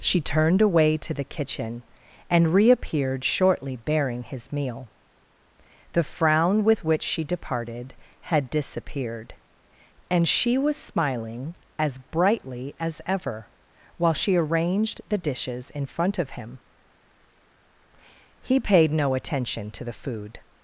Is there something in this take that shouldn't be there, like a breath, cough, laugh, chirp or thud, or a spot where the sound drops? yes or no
no